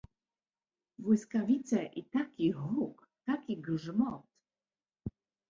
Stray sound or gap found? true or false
false